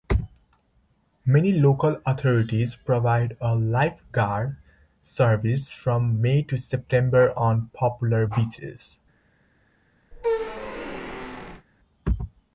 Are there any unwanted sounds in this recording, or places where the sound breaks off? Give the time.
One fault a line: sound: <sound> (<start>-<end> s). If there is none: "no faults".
sound: squeak (10.1-11.7 s)